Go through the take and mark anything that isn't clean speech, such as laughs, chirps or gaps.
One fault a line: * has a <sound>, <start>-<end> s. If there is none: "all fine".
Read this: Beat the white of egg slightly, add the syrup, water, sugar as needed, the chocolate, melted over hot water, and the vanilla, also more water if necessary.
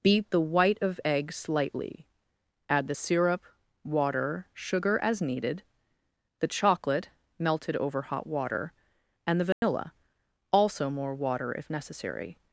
* has a dropout, 9.5-9.6 s